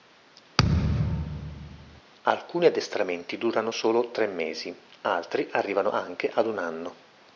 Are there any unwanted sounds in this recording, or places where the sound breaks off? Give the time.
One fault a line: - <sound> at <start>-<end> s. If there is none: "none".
- thud at 0.6-2.0 s